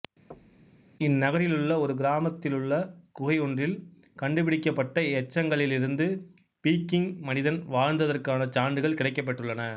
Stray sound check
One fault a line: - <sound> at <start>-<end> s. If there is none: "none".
- thud at 0.3-0.9 s